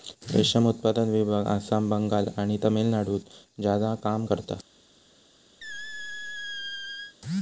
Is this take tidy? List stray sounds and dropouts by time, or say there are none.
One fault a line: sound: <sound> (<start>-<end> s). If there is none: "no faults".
sound: squeak (5.6-7.2 s)